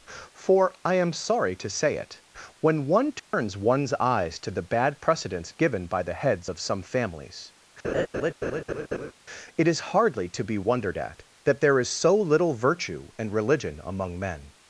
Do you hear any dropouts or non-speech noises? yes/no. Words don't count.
yes